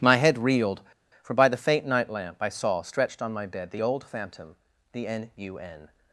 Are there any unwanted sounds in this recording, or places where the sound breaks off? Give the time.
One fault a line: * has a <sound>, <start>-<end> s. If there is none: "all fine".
all fine